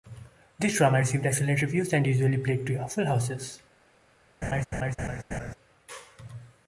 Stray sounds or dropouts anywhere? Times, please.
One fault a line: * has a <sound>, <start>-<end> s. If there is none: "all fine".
* has a laugh, 4.4-5.5 s